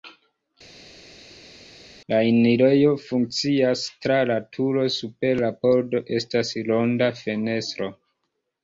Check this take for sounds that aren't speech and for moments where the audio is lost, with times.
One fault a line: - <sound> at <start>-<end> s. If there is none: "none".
none